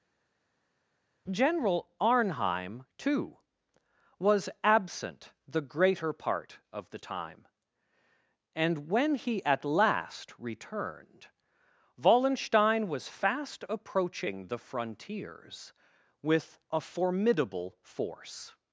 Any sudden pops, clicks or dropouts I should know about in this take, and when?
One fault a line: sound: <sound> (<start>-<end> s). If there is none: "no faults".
no faults